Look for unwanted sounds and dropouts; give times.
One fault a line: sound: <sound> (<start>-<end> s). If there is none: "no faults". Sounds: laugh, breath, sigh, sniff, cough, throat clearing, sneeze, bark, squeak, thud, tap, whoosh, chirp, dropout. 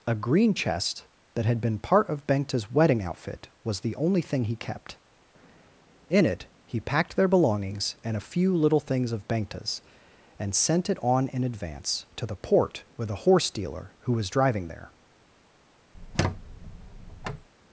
sound: squeak (15.9-17.5 s)